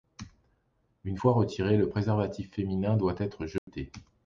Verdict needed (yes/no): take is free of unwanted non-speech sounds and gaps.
no